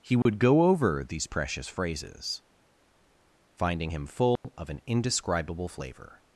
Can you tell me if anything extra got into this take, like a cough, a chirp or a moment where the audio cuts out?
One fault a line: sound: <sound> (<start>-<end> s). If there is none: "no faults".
sound: dropout (0.2-0.3 s)
sound: dropout (4.4-4.4 s)